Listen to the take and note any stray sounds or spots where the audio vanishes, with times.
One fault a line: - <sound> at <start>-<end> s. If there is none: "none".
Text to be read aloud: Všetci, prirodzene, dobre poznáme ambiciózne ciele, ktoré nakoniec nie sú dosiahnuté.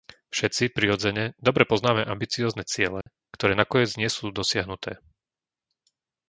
- dropout at 3.0-3.1 s